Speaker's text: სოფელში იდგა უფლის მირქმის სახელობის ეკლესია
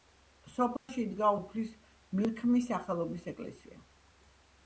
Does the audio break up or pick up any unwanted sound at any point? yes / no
yes